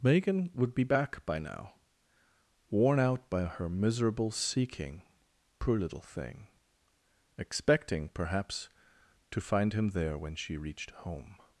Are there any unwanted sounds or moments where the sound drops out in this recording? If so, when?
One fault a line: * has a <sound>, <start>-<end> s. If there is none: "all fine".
all fine